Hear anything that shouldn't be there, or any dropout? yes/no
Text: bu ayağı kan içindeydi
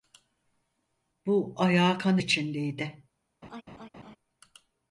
yes